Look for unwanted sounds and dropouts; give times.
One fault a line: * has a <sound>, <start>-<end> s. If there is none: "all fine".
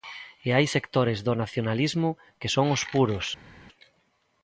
all fine